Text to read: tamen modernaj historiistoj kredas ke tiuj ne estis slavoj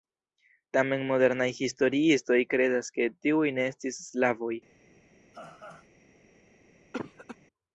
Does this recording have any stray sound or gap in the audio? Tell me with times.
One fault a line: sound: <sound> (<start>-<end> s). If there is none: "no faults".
sound: laugh (5.3-5.9 s)
sound: cough (6.9-7.4 s)